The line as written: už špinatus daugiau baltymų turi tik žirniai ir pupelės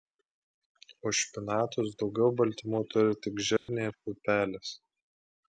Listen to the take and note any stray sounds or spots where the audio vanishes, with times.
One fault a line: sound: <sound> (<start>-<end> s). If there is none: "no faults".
sound: dropout (3.6-3.7 s)